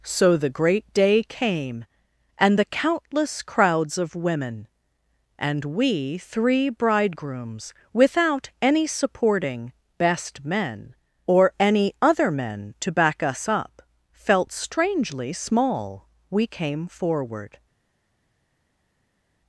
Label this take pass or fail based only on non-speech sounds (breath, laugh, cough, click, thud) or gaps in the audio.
pass